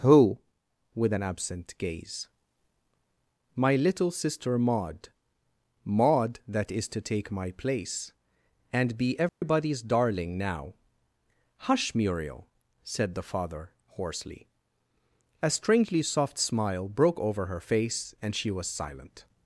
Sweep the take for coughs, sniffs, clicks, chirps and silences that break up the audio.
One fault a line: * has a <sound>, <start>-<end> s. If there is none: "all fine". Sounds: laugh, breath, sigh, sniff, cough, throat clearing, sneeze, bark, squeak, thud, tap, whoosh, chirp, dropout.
* has a dropout, 9.3-9.4 s